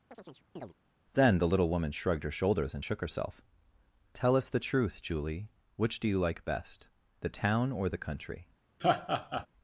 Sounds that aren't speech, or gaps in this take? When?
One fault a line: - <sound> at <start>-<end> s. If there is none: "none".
- chirp at 0.1-0.7 s
- laugh at 8.8-9.5 s